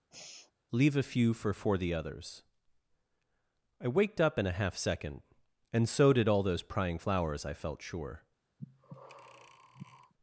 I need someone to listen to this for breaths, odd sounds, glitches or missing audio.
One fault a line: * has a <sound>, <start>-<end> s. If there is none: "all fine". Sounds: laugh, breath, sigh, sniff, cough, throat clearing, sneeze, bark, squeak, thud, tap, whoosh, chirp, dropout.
* has a sigh, 0.1-0.5 s
* has a breath, 8.6-10.1 s